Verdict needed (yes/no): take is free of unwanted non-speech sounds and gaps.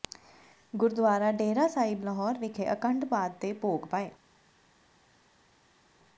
yes